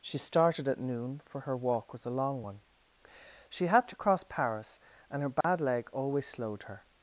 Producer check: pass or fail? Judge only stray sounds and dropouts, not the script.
fail